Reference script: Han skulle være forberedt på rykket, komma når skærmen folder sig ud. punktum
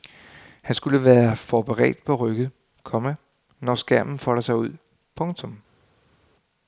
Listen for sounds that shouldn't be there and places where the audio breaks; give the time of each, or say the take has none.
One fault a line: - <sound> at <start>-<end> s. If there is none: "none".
none